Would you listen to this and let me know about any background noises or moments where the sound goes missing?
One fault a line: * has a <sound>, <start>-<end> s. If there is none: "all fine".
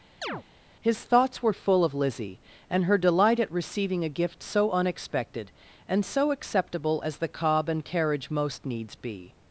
* has a chirp, 0.2-0.4 s